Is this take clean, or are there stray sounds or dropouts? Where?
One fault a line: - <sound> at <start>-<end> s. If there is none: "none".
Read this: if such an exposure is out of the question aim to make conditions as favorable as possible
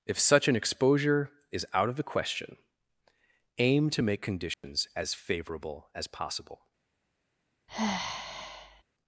- dropout at 4.5-4.6 s
- sigh at 7.7-8.8 s